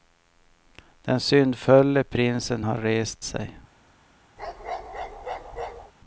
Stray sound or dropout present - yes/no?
yes